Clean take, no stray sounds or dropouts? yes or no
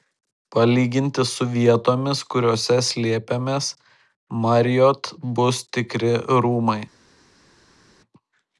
yes